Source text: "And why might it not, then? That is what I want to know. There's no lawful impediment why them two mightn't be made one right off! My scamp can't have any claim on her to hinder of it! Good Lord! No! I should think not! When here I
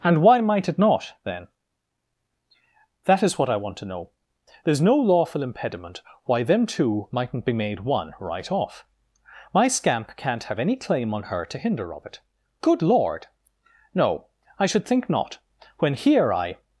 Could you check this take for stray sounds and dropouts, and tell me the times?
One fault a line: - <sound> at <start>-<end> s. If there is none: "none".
none